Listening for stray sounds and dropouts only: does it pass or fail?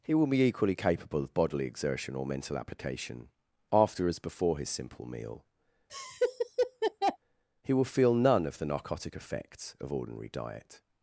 fail